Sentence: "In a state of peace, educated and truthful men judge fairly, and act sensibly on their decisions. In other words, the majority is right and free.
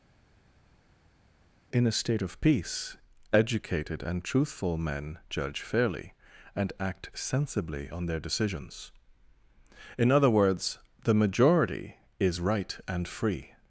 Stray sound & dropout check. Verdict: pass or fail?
pass